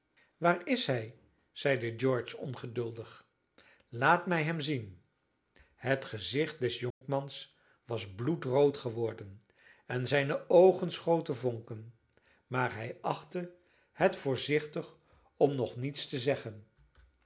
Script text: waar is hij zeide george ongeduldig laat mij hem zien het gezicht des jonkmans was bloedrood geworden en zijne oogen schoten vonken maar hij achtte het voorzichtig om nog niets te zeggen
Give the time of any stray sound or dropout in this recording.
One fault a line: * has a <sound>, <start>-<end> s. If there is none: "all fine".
* has a dropout, 6.9-7.0 s